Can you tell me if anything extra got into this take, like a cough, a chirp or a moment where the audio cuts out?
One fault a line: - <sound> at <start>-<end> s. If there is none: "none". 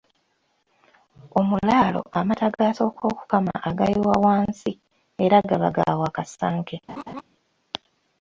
- laugh at 6.9-7.2 s